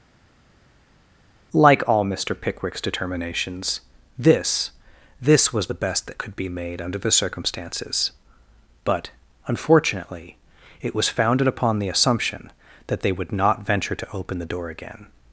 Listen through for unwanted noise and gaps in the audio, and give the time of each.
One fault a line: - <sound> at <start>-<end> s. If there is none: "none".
none